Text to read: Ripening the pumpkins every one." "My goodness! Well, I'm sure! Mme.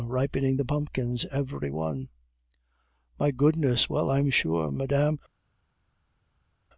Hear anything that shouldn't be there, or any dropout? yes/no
no